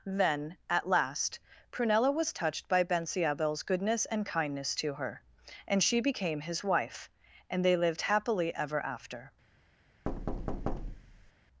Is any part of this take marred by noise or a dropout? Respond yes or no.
yes